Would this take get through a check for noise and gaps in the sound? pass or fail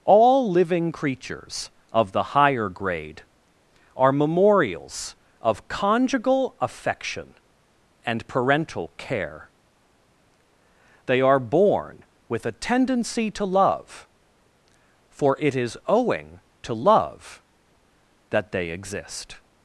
pass